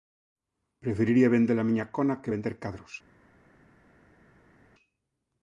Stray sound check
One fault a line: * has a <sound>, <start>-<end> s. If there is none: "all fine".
all fine